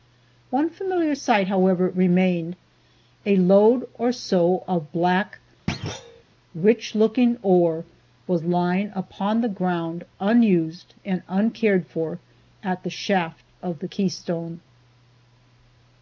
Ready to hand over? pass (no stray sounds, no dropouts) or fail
fail